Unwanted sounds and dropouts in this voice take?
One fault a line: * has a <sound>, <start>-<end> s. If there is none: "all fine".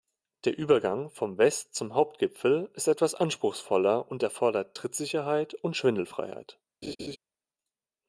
* has a laugh, 6.8-7.2 s